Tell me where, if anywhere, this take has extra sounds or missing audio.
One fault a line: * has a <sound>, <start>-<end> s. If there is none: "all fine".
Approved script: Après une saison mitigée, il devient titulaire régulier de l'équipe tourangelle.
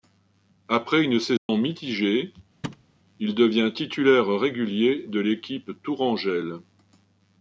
* has a dropout, 1.4-1.5 s
* has a thud, 2.6-2.9 s